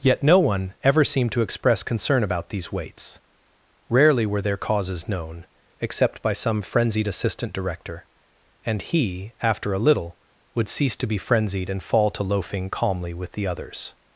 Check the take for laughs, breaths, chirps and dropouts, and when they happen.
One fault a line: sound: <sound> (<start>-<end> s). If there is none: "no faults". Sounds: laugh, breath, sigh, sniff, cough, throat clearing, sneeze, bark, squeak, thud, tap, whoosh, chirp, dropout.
no faults